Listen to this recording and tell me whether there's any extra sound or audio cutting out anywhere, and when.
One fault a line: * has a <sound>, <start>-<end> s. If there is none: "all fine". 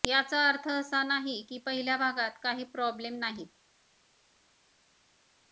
all fine